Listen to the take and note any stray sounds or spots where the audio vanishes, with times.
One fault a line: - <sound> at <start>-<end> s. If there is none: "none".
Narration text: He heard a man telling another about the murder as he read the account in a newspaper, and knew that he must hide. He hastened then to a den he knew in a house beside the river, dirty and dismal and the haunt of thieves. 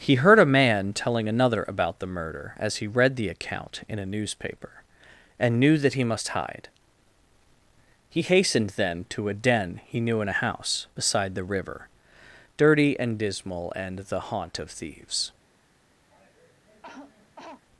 - cough at 16.1-17.6 s